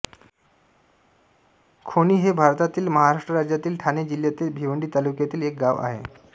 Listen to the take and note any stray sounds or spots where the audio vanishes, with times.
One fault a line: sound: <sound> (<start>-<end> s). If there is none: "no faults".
no faults